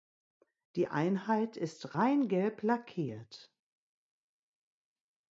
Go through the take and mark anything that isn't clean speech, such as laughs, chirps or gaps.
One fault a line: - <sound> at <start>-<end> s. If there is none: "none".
none